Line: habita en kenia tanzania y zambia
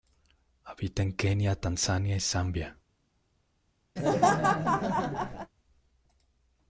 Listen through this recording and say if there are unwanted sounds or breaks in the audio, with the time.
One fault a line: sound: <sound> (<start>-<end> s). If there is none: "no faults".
sound: laugh (4.0-5.5 s)